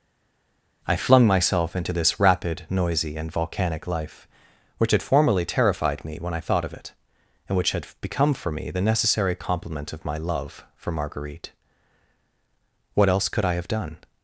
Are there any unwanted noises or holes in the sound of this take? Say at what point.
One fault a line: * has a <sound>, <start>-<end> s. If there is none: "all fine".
all fine